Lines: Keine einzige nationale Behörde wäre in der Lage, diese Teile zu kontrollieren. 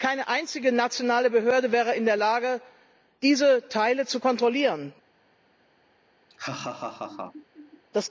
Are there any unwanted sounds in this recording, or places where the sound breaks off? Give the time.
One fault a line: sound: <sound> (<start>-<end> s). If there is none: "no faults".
sound: laugh (6.3-7.8 s)